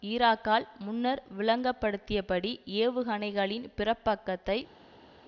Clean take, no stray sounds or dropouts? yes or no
yes